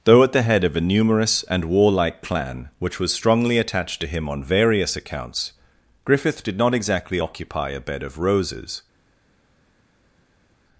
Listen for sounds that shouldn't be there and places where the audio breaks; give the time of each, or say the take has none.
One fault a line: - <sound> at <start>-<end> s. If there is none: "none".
none